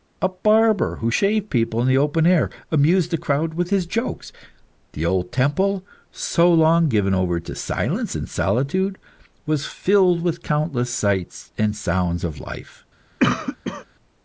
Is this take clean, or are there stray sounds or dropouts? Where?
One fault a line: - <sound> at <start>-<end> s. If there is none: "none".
- cough at 13.2-13.9 s